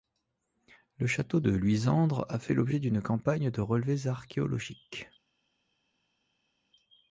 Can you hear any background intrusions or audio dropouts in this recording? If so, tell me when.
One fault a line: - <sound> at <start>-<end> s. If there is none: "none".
none